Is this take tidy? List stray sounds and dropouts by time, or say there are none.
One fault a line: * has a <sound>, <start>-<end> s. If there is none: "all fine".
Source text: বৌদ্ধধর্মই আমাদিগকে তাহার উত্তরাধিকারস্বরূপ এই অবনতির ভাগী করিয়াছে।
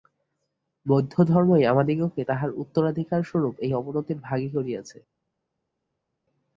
all fine